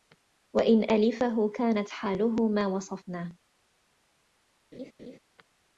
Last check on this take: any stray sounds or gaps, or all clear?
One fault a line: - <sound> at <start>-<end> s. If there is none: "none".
- laugh at 4.7-5.2 s